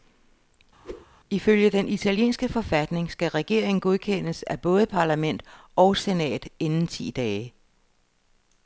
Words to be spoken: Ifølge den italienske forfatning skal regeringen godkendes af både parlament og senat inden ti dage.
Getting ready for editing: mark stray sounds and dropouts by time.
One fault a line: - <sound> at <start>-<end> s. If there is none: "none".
- whoosh at 0.8-1.1 s